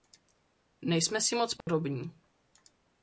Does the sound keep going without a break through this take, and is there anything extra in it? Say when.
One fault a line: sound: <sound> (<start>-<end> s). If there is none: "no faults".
sound: dropout (1.6-1.7 s)